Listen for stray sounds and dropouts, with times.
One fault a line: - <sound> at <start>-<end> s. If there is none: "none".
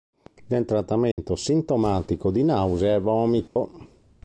- dropout at 1.1-1.2 s
- dropout at 3.5-3.6 s